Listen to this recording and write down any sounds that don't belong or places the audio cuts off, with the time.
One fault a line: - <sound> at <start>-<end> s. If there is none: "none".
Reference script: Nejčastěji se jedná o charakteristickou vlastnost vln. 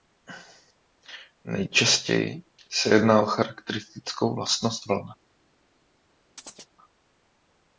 - chirp at 6.4-6.7 s